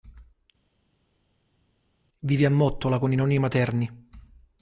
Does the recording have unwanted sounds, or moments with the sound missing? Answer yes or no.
no